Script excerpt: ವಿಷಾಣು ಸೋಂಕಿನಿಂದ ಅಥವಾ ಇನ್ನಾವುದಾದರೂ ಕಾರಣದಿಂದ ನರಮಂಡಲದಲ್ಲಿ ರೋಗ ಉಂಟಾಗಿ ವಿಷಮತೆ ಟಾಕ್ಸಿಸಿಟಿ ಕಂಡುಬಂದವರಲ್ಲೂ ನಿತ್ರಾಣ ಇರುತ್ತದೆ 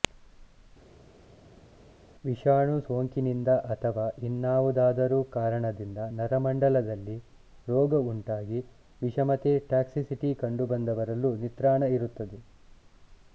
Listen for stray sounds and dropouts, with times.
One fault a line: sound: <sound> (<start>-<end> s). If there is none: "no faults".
no faults